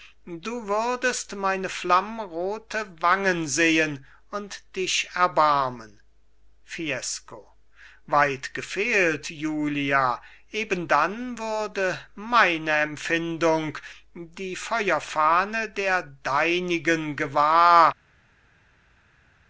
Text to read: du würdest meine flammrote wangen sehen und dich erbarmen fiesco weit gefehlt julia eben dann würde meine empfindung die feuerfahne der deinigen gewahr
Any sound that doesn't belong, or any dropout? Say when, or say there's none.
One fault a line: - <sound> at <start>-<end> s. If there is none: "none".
none